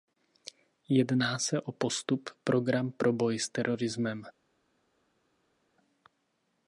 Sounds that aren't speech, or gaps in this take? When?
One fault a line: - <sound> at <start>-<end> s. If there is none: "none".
none